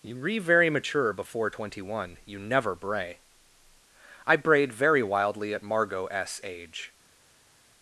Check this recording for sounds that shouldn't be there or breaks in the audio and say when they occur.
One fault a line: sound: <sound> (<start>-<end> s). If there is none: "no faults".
no faults